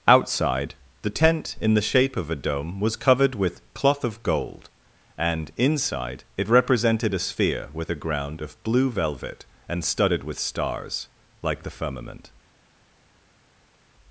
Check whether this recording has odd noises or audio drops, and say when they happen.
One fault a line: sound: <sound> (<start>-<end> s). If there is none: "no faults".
no faults